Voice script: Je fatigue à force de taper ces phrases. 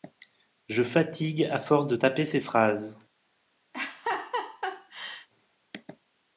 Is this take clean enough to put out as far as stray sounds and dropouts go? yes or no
no